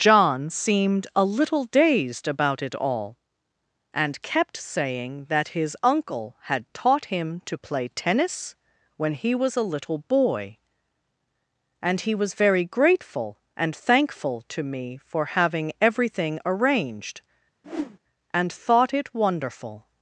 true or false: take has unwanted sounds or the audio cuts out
true